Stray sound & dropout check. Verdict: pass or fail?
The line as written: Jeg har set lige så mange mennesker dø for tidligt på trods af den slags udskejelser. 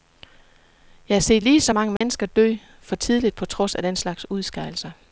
fail